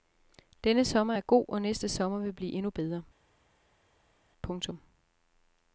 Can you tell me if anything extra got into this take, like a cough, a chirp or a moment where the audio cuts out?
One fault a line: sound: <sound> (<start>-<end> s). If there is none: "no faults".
no faults